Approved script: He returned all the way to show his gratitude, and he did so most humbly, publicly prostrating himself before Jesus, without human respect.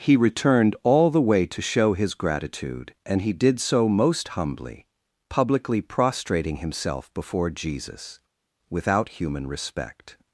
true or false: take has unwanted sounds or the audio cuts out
false